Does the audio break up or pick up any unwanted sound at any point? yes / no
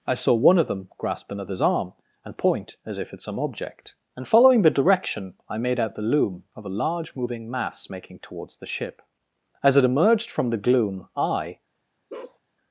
yes